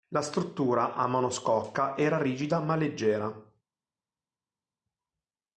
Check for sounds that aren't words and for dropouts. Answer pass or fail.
pass